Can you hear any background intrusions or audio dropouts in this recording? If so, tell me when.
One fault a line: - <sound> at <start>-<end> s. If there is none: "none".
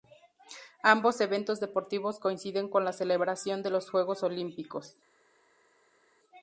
none